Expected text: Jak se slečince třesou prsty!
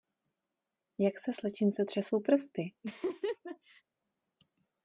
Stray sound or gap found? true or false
true